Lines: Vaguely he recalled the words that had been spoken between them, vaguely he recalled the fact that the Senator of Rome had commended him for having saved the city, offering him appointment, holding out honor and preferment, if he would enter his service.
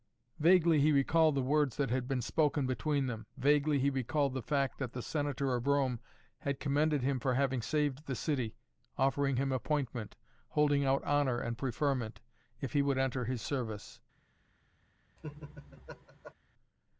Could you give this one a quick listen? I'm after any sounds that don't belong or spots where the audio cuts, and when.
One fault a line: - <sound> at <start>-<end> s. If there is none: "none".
- laugh at 15.2-16.3 s